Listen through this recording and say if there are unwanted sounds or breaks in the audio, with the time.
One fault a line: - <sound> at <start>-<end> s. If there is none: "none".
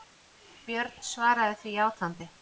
none